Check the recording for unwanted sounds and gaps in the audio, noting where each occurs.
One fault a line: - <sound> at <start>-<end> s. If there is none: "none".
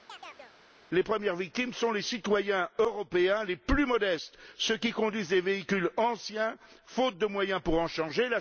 - chirp at 0.1-0.6 s